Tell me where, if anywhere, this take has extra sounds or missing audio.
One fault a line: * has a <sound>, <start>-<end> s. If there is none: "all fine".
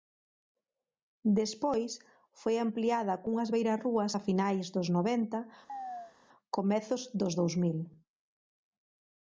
* has a chirp, 5.7-6.1 s